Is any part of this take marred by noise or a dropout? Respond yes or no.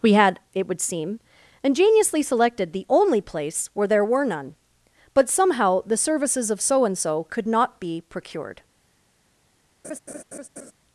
yes